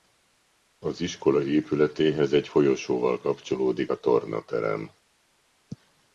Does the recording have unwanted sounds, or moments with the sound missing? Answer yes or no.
no